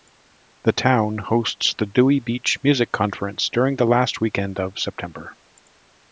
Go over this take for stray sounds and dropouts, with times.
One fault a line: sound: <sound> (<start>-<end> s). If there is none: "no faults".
no faults